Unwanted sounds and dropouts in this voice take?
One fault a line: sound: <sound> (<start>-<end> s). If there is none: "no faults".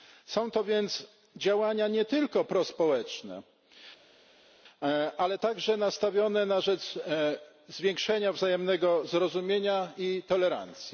no faults